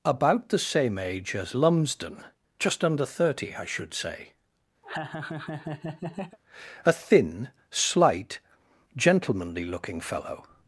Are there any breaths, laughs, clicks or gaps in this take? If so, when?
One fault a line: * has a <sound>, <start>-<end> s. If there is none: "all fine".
* has a laugh, 4.8-6.4 s